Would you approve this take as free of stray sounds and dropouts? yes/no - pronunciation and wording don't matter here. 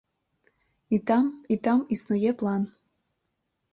yes